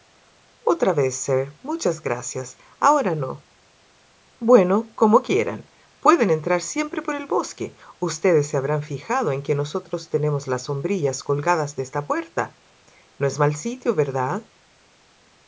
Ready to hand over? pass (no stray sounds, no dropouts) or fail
pass